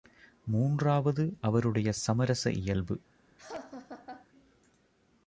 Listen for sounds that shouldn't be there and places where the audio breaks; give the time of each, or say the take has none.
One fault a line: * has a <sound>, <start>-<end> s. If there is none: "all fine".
* has a laugh, 3.4-4.3 s